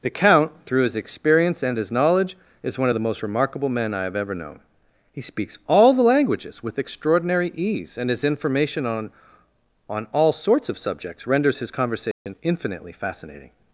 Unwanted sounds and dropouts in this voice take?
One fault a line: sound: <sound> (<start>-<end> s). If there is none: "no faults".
sound: dropout (12.1-12.3 s)